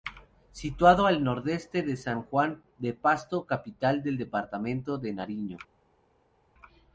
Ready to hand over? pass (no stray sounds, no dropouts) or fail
pass